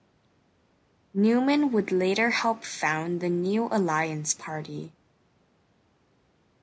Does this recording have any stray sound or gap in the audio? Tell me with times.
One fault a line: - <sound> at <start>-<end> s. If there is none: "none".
none